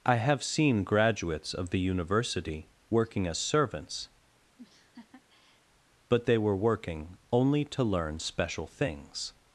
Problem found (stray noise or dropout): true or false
true